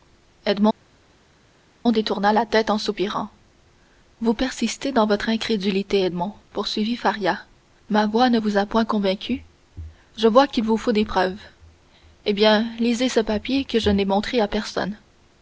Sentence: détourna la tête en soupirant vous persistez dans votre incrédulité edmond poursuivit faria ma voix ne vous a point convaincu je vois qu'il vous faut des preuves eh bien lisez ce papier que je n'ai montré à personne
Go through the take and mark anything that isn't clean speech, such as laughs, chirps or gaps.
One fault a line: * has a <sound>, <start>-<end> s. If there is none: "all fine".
all fine